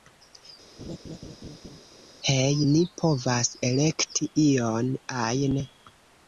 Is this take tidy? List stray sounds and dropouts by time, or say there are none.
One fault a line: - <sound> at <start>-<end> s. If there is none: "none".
- laugh at 0.8-1.8 s